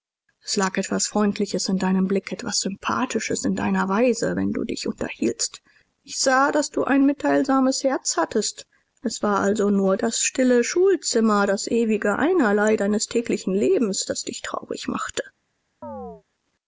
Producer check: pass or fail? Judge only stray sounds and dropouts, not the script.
fail